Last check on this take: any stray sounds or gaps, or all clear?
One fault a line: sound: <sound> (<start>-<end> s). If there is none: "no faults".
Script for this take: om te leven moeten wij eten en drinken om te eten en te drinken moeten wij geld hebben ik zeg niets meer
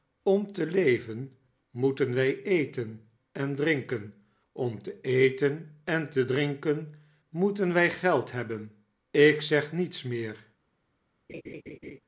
sound: laugh (11.3-12.0 s)